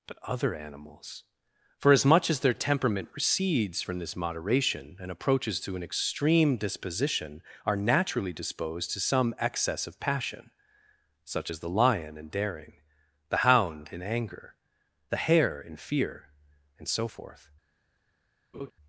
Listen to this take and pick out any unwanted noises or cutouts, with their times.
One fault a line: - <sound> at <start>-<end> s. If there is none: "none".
- laugh at 18.5-18.7 s